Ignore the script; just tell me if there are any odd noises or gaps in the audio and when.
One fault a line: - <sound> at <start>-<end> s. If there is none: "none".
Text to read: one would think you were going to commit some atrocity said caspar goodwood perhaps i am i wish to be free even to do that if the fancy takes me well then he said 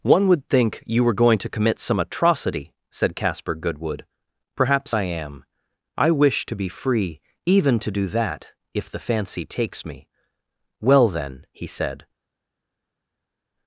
none